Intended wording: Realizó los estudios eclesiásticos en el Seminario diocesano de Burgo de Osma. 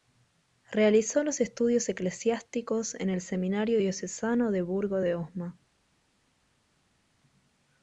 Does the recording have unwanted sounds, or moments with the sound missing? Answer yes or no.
no